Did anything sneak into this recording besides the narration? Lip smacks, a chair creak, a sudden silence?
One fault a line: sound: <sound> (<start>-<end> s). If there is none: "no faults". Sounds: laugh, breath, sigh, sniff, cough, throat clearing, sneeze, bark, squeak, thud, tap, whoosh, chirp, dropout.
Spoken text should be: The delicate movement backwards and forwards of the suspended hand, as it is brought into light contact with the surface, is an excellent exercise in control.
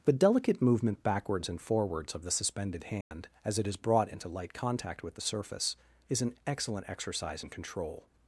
sound: dropout (3.0-3.1 s)